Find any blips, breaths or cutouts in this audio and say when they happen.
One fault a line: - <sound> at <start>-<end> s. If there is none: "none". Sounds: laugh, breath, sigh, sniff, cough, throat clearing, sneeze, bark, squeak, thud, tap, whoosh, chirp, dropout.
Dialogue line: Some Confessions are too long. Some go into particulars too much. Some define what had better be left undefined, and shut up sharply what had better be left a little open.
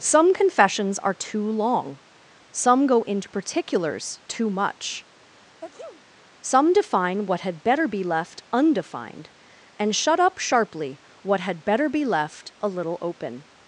- sneeze at 5.3-6.1 s